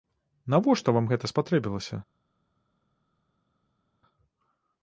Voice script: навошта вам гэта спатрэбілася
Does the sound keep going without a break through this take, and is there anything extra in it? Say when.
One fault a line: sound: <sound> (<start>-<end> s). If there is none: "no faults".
no faults